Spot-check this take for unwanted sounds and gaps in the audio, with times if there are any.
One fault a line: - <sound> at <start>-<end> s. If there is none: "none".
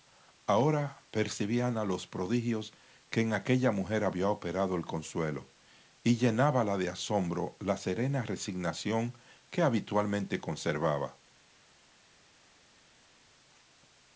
none